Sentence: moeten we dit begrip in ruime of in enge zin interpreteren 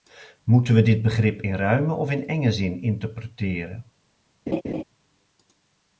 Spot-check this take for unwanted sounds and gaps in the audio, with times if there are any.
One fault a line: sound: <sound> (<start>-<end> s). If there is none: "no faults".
sound: laugh (4.5-4.8 s)